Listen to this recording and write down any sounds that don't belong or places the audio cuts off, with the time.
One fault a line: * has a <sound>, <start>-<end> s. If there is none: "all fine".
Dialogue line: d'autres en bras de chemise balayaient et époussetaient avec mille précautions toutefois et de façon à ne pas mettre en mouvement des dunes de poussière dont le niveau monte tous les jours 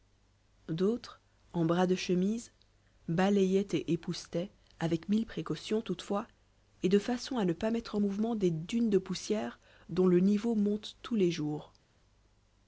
all fine